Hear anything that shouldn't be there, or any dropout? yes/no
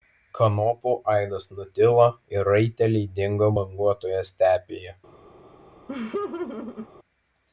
yes